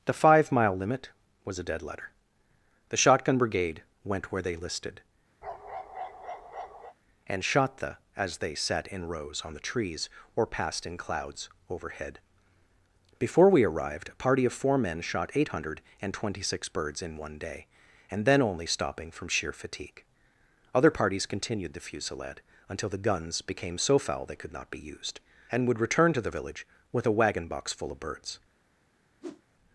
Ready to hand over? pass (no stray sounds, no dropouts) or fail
fail